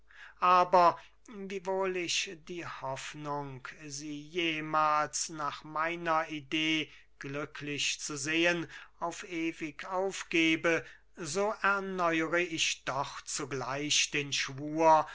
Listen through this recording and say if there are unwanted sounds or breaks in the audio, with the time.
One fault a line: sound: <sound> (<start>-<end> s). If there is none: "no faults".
no faults